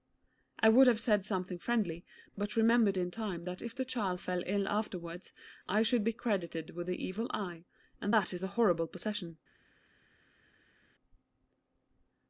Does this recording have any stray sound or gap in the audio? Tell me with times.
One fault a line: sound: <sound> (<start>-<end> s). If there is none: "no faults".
no faults